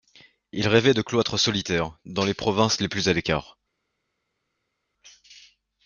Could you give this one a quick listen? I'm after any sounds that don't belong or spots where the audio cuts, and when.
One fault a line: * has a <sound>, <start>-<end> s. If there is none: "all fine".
all fine